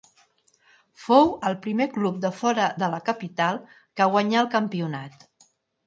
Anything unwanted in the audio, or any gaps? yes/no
no